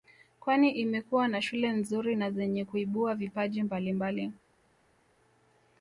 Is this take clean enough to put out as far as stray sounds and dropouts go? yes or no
yes